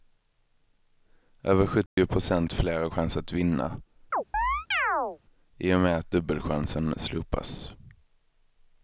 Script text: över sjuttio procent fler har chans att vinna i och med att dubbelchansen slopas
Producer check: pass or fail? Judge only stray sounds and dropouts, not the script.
fail